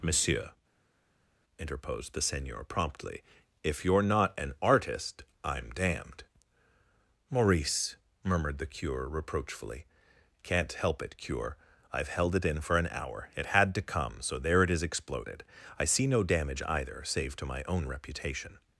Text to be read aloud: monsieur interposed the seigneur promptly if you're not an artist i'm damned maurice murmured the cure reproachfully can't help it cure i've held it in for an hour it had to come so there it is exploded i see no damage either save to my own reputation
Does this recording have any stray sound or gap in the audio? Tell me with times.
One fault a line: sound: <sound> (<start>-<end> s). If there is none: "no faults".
no faults